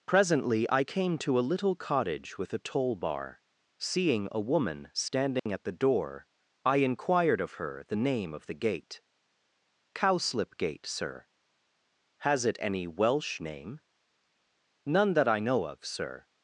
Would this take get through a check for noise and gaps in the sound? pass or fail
fail